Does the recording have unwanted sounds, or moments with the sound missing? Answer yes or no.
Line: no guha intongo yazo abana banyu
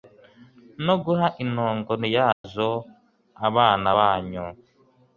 yes